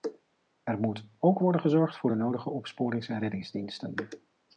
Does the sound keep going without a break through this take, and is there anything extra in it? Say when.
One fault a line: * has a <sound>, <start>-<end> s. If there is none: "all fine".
all fine